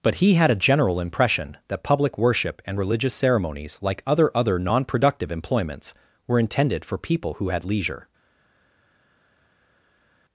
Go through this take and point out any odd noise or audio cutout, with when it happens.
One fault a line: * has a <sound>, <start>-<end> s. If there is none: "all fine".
all fine